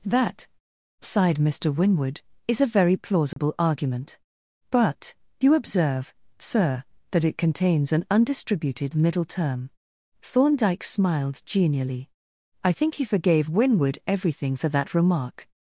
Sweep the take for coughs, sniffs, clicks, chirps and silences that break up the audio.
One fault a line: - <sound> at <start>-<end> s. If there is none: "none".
- dropout at 3.3-3.4 s